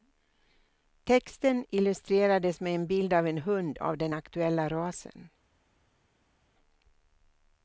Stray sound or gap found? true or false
false